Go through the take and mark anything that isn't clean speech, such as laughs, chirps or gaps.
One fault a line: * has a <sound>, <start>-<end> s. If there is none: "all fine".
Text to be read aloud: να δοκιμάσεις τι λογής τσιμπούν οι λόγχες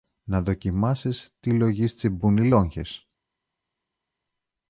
all fine